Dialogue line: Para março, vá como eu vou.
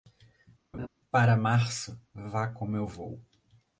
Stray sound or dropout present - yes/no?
yes